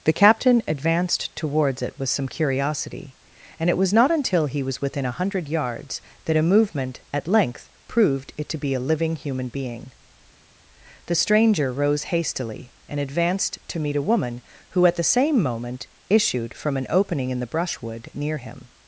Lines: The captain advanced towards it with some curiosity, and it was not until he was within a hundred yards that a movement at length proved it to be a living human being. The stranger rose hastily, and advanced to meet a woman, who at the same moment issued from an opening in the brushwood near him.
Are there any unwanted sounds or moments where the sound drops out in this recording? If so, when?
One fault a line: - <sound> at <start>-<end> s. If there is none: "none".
none